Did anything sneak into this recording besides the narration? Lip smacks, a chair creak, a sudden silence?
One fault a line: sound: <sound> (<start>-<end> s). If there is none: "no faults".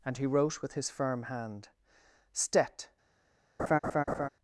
sound: laugh (3.6-4.3 s)